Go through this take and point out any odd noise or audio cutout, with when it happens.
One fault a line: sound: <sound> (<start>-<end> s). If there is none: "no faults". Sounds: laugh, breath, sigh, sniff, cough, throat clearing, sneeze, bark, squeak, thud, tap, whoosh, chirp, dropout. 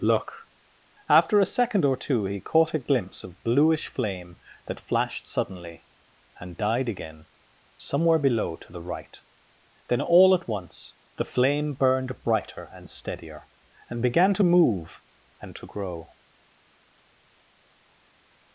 no faults